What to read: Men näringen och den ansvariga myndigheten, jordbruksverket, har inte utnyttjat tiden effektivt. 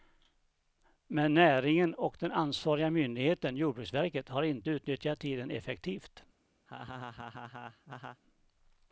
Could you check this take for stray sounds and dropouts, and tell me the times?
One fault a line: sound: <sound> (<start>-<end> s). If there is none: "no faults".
sound: laugh (6.7-8.2 s)